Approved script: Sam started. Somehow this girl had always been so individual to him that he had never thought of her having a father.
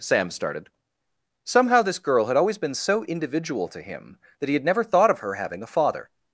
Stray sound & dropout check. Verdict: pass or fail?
pass